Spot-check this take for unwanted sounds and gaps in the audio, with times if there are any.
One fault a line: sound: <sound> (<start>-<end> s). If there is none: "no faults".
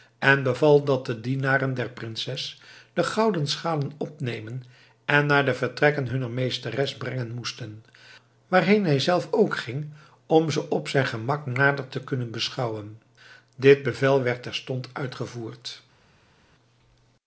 no faults